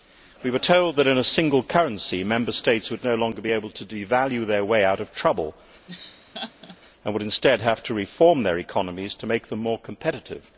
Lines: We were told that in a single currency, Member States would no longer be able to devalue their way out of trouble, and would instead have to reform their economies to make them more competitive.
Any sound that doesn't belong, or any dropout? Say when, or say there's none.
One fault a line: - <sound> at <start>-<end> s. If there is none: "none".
- laugh at 5.9-6.8 s